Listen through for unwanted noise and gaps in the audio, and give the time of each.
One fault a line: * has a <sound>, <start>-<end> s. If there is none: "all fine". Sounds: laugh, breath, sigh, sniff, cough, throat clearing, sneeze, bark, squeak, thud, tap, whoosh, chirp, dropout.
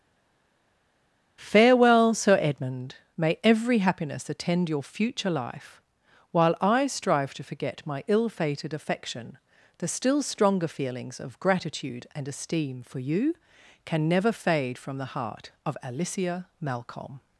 all fine